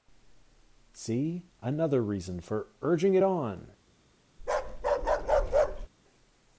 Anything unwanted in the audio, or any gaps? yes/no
yes